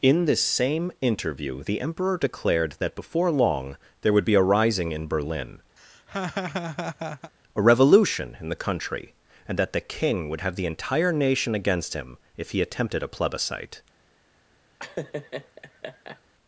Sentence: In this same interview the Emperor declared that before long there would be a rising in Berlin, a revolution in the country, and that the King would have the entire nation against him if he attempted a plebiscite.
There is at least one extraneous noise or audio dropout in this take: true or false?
true